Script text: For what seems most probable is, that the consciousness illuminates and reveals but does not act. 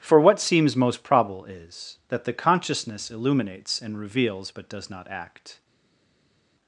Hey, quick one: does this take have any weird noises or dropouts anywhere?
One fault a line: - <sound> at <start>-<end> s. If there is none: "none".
none